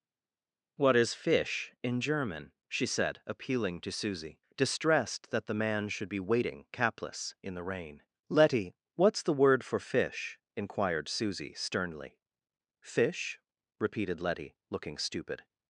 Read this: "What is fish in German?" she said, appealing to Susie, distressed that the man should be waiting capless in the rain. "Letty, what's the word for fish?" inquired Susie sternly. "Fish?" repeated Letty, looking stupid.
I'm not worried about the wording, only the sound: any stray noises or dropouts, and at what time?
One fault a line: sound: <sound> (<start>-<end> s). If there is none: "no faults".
no faults